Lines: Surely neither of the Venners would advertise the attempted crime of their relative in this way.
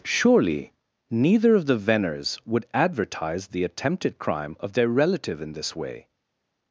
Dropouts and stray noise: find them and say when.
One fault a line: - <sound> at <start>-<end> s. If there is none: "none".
none